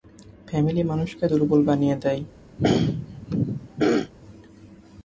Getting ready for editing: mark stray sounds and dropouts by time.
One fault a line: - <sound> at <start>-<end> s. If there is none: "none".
- throat clearing at 2.6-4.1 s